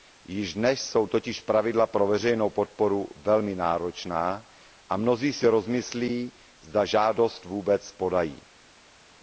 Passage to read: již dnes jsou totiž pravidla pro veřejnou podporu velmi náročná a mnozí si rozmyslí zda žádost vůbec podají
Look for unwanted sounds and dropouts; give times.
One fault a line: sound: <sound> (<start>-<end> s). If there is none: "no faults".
no faults